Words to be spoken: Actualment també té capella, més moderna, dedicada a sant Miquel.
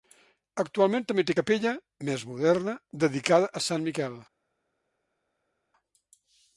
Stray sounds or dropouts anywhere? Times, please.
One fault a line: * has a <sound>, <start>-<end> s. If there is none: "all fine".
all fine